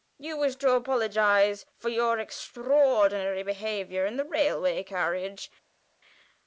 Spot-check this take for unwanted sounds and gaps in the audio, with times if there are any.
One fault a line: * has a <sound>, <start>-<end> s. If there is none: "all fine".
all fine